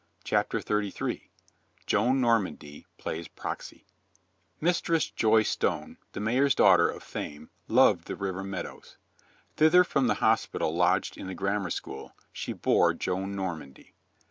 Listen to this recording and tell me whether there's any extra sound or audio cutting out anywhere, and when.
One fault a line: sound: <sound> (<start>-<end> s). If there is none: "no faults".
no faults